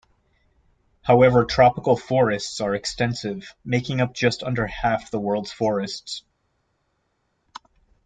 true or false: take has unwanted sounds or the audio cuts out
false